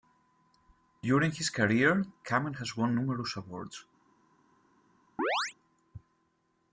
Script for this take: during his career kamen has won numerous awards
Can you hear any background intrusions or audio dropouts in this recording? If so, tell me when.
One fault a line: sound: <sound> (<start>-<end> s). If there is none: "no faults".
sound: chirp (5.2-5.5 s)